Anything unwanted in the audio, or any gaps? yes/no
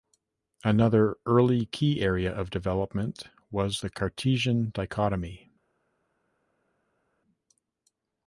no